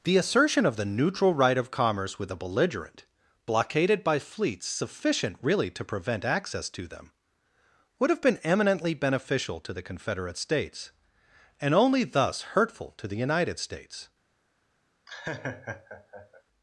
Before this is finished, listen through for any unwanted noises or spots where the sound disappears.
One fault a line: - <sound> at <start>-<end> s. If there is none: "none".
- laugh at 15.1-16.4 s